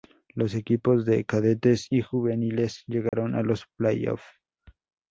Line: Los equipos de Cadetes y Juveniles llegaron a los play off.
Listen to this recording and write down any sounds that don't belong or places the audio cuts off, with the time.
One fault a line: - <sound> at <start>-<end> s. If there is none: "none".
- dropout at 3.1-3.1 s